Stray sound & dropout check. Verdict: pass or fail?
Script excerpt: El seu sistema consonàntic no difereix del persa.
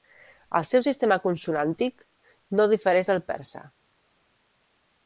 pass